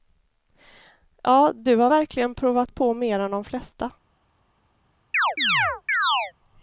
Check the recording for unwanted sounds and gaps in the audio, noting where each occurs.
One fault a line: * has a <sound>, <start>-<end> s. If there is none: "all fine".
* has a chirp, 5.1-6.3 s